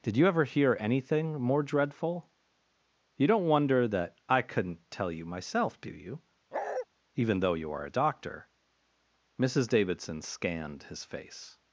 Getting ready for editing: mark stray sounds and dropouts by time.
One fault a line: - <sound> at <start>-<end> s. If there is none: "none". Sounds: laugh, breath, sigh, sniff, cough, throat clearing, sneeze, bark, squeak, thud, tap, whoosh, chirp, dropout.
- bark at 6.5-6.9 s